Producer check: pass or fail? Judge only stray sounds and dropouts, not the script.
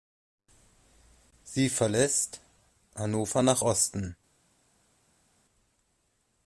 pass